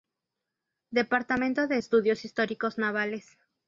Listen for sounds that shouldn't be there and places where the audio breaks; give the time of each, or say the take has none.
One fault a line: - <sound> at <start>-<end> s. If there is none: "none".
none